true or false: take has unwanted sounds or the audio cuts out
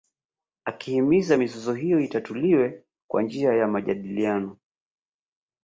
false